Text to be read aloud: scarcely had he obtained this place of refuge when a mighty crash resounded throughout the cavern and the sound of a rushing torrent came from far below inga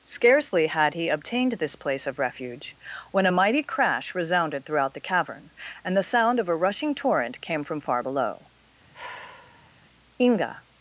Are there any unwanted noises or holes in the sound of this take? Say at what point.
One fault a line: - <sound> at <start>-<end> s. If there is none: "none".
- sigh at 8.9-9.7 s